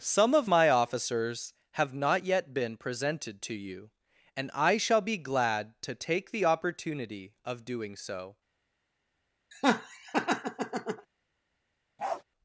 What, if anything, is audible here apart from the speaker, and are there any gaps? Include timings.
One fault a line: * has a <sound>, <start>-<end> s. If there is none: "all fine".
* has a laugh, 9.5-11.1 s
* has a bark, 12.0-12.2 s